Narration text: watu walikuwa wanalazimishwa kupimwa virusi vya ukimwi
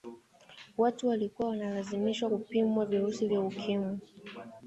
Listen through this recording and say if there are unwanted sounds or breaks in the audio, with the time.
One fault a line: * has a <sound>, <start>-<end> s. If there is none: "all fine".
all fine